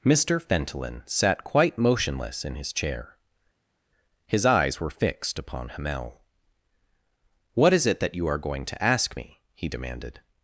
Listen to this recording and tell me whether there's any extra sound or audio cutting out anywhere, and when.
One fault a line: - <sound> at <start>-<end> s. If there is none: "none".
none